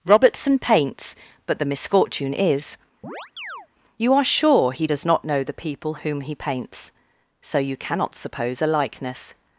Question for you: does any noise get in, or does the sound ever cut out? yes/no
yes